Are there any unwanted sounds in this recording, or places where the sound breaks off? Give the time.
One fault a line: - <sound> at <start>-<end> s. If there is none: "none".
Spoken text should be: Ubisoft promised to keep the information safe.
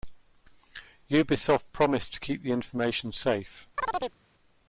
- chirp at 3.8-4.2 s